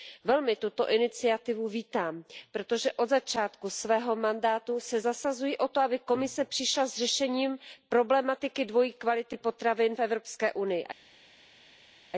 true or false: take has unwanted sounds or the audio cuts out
false